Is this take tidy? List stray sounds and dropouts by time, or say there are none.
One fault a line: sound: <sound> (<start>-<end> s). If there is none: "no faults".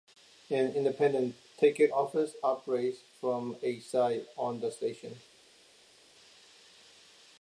no faults